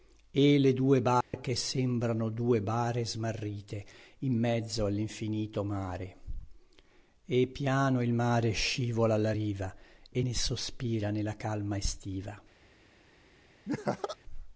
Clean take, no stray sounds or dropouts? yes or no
no